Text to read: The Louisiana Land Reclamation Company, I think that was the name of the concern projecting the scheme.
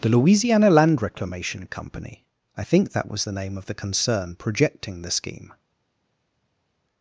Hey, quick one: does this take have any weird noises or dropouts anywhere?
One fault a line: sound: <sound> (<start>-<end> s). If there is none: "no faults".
no faults